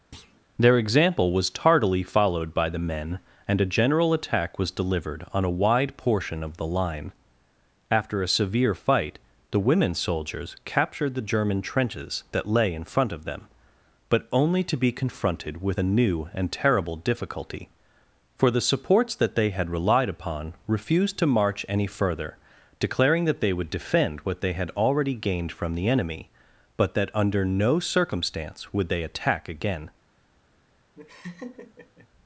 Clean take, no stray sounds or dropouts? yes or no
no